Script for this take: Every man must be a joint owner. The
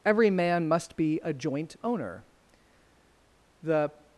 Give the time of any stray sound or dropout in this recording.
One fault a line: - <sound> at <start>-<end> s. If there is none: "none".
none